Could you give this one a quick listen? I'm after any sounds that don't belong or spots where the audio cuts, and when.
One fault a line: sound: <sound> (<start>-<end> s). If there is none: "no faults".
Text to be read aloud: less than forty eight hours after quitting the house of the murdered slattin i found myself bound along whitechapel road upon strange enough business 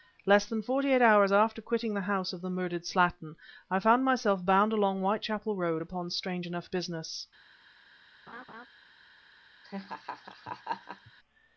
sound: laugh (8.3-8.7 s)
sound: laugh (9.6-11.1 s)